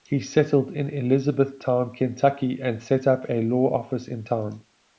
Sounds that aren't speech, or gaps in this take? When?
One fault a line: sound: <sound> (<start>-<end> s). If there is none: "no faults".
no faults